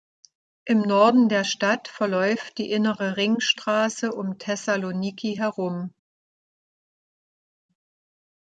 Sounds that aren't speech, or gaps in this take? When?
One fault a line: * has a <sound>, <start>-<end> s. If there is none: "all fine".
all fine